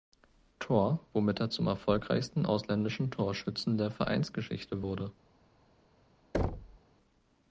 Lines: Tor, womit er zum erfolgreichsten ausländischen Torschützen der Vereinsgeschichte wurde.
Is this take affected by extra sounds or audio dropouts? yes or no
yes